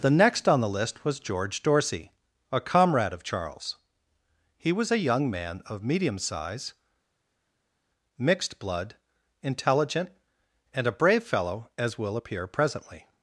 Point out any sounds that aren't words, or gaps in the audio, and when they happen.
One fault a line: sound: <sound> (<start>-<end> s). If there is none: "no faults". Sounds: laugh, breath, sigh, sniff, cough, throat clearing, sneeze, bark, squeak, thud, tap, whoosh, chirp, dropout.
no faults